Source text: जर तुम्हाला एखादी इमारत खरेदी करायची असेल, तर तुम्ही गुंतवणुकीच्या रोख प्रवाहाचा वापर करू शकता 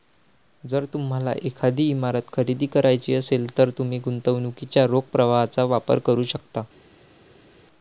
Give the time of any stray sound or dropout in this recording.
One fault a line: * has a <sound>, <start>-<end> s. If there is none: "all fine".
all fine